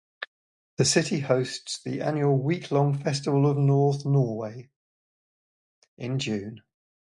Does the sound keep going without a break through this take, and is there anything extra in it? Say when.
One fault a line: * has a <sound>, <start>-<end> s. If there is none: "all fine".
all fine